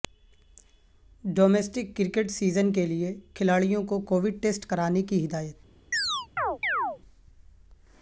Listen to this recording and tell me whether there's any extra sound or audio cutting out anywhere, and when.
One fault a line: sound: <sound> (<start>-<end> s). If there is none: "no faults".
sound: chirp (5.9-7.0 s)